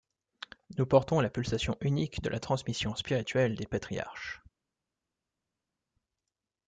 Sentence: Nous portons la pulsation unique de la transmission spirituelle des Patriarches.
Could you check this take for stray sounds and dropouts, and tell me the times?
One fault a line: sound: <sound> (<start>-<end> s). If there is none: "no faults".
no faults